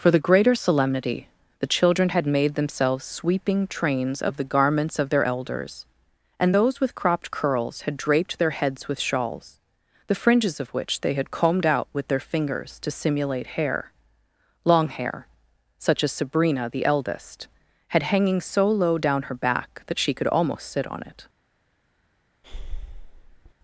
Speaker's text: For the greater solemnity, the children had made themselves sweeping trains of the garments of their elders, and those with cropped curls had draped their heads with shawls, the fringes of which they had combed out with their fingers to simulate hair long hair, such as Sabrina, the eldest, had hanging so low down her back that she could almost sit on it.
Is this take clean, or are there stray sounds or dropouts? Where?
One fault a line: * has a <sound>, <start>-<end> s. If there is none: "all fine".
* has a breath, 22.4-23.5 s